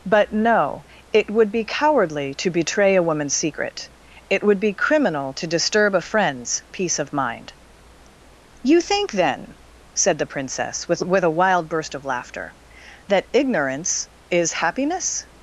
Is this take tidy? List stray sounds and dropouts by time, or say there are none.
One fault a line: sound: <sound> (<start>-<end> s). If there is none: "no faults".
no faults